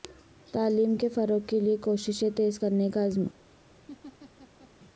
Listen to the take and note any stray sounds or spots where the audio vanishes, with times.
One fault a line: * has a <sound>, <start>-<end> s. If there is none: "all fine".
* has a laugh, 3.9-4.7 s